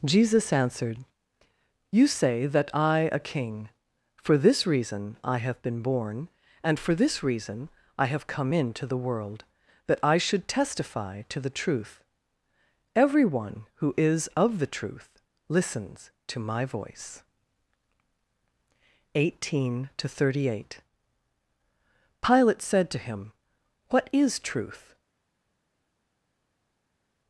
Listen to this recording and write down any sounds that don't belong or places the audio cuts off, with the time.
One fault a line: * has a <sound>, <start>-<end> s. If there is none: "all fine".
all fine